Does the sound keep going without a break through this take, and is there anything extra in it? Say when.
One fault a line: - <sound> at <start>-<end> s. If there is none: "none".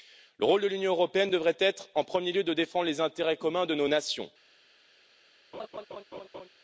- laugh at 5.5-6.5 s